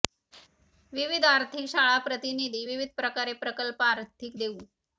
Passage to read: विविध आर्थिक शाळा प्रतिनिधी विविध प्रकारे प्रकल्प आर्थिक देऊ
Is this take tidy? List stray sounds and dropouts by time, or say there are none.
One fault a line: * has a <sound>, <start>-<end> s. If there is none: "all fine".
all fine